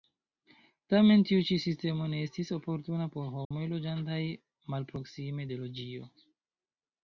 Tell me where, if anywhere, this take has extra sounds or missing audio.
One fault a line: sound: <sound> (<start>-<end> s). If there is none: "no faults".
sound: dropout (3.4-3.5 s)